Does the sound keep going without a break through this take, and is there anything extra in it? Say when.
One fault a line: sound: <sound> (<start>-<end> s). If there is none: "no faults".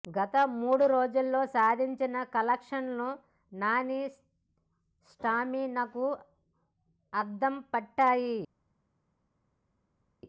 no faults